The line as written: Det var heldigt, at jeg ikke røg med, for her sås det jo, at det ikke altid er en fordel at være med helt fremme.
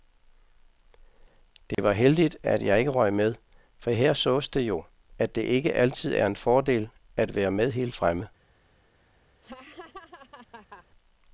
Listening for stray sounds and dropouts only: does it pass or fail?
fail